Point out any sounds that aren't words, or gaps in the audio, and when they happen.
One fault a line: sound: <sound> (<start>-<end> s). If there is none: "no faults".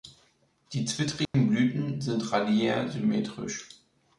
sound: dropout (1.2-1.3 s)